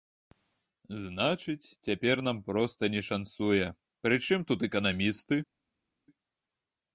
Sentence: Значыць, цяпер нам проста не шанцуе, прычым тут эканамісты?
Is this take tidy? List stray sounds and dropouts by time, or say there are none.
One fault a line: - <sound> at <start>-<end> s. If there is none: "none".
none